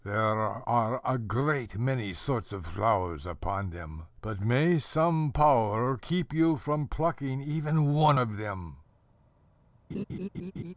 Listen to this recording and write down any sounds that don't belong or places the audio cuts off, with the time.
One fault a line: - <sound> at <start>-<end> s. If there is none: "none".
- laugh at 9.9-10.7 s